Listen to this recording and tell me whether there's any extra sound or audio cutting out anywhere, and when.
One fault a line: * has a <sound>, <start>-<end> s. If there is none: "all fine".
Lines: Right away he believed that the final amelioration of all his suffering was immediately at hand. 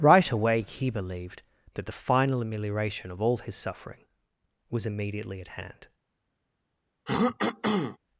* has a throat clearing, 7.1-8.0 s